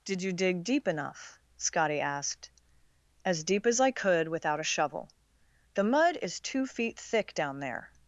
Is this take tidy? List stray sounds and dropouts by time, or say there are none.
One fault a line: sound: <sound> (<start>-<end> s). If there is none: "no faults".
no faults